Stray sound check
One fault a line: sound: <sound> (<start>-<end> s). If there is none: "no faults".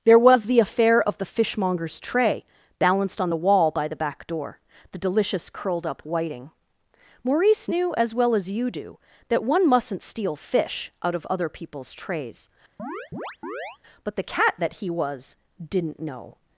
sound: chirp (12.8-13.8 s)